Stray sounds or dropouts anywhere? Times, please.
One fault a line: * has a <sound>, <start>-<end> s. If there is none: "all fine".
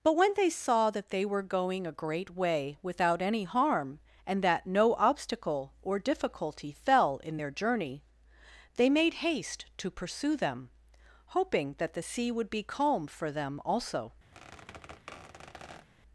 * has a squeak, 14.3-15.9 s